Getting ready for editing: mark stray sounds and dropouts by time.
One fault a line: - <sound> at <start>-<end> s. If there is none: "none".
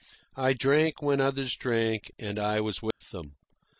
- dropout at 2.9-3.0 s